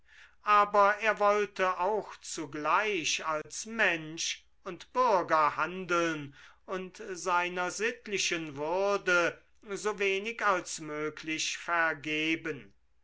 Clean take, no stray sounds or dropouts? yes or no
no